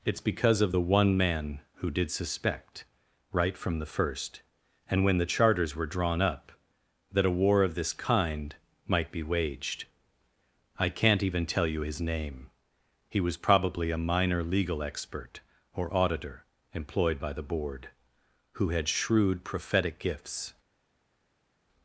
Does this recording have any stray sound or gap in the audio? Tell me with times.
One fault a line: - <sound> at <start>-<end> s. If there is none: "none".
none